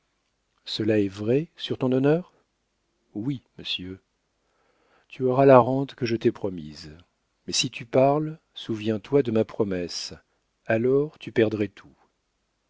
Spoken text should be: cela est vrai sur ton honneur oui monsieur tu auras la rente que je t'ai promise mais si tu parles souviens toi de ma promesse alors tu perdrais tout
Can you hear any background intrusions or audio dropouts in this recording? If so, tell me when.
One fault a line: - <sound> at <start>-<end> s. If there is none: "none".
none